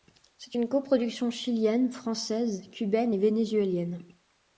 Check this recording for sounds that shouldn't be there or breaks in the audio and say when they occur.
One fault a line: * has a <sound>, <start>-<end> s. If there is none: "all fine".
all fine